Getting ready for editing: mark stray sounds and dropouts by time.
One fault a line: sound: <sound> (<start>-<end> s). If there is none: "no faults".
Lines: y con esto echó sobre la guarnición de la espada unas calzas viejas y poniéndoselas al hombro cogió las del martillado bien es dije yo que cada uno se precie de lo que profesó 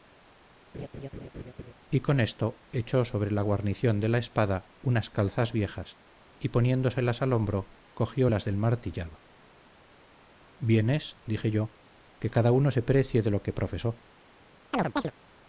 sound: laugh (0.7-1.7 s)
sound: chirp (14.7-15.1 s)